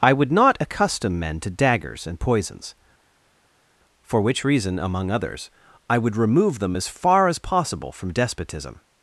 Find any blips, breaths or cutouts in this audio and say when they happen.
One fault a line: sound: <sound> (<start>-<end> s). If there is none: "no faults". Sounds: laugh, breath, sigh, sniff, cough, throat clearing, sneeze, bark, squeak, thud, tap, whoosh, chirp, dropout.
no faults